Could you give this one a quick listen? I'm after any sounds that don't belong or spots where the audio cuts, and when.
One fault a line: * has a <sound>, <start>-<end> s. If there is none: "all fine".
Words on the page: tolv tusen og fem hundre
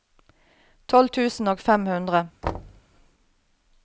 * has a thud, 2.4-2.8 s